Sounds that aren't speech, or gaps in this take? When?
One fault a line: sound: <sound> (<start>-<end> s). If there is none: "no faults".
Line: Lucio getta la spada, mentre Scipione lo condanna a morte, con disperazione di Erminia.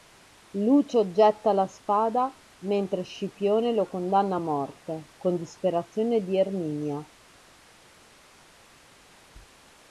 no faults